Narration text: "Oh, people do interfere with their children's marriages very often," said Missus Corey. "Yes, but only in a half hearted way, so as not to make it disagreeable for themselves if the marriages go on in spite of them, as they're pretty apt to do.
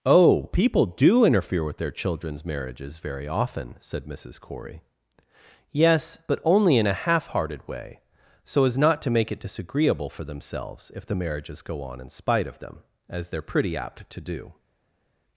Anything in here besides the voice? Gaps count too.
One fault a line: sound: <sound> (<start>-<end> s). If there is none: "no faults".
no faults